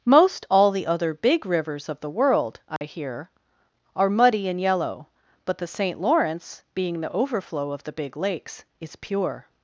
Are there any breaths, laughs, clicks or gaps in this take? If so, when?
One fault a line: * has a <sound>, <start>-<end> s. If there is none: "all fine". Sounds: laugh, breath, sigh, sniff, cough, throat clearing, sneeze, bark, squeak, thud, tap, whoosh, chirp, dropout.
* has a dropout, 2.8-2.8 s